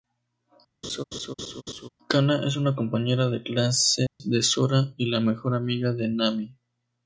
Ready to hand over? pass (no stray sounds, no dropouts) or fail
fail